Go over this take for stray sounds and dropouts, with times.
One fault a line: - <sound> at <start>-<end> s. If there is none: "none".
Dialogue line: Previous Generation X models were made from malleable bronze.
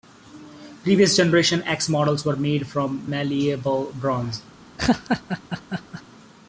- laugh at 4.8-6.0 s